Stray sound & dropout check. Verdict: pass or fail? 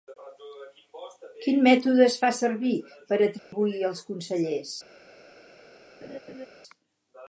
fail